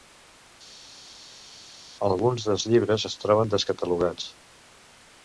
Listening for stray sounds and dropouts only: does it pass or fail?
pass